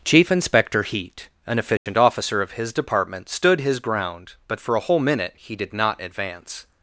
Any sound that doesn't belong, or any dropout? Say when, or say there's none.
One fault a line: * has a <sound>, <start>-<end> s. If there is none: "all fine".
* has a dropout, 1.8-1.9 s